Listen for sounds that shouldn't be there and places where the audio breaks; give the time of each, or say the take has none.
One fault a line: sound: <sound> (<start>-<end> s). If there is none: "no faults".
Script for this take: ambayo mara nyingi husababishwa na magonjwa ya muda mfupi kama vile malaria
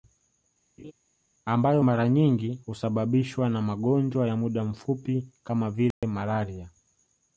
sound: laugh (0.8-0.9 s)
sound: dropout (5.9-6.0 s)